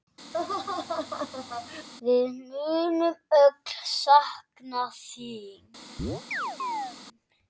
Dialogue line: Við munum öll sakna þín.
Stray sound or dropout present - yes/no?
yes